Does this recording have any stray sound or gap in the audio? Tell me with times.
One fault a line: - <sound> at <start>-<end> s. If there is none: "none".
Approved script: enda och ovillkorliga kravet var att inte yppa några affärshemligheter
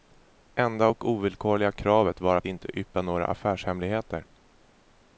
none